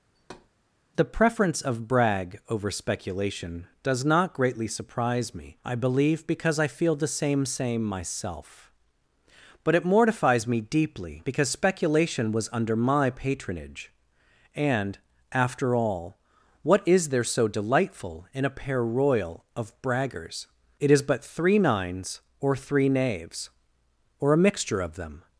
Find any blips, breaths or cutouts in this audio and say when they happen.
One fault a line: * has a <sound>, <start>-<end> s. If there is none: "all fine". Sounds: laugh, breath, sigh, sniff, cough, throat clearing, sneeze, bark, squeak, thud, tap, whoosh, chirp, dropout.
* has a thud, 0.1-0.5 s